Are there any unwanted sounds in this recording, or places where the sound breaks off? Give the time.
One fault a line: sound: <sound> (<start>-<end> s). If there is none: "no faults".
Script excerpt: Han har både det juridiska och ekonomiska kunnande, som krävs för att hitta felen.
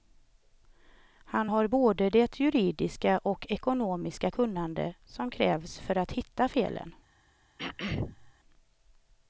sound: throat clearing (7.6-8.3 s)